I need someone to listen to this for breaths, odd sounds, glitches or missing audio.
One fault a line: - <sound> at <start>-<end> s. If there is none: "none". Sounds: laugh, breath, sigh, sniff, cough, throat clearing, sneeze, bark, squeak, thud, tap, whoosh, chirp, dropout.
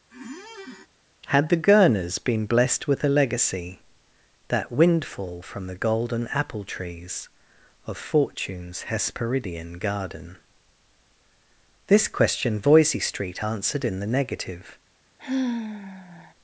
- squeak at 0.1-0.9 s
- sigh at 15.2-16.3 s